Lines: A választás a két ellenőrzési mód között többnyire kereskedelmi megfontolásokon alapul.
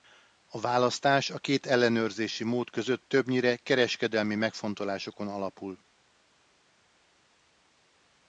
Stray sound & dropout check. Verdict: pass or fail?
pass